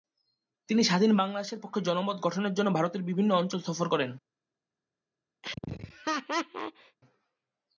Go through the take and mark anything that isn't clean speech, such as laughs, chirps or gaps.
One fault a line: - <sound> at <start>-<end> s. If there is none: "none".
- laugh at 5.4-7.0 s